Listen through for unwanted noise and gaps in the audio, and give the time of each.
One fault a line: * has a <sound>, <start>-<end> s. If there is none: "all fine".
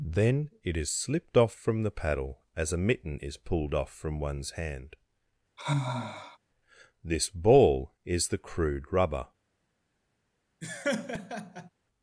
* has a sigh, 5.6-6.4 s
* has a laugh, 10.6-11.7 s